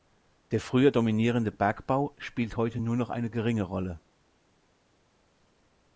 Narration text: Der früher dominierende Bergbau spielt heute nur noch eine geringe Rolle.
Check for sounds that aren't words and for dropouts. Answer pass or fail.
pass